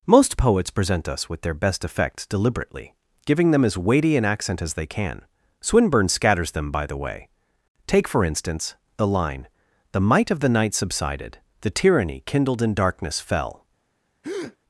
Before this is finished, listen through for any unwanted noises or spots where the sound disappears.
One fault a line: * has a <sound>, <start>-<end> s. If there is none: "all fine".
* has a breath, 14.2-14.6 s